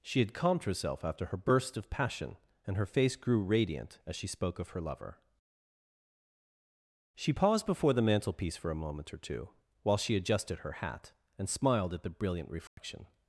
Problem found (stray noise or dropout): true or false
true